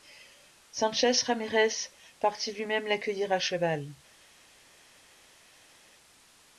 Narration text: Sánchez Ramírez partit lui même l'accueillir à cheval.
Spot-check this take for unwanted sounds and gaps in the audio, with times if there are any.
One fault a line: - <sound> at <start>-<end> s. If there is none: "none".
none